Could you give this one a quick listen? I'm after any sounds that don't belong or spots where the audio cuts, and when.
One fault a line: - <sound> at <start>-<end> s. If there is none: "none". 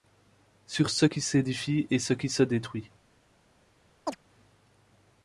- chirp at 4.1-4.2 s